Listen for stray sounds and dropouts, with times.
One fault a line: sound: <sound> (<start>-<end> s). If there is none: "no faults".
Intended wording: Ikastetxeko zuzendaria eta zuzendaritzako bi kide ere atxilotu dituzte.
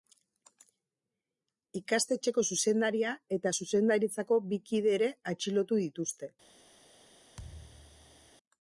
sound: thud (7.4-8.3 s)